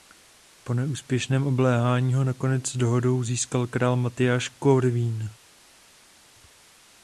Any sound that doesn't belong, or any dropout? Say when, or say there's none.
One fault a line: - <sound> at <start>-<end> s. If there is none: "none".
none